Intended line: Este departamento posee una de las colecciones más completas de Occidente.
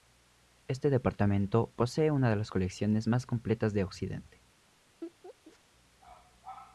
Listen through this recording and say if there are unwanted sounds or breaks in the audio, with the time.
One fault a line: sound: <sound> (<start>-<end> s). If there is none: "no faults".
sound: laugh (5.0-5.6 s)